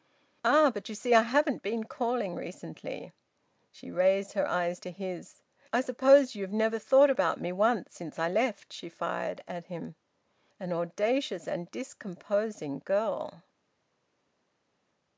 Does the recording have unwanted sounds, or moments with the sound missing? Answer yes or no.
no